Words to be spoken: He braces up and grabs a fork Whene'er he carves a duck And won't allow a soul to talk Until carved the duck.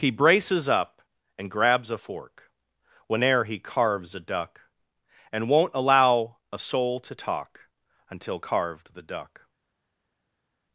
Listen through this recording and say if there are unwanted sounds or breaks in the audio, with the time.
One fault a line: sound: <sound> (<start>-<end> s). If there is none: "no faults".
no faults